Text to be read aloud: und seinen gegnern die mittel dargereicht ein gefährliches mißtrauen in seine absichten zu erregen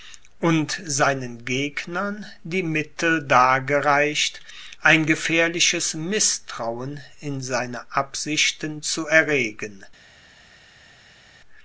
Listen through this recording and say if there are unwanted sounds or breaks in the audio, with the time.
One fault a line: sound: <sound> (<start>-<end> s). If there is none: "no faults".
no faults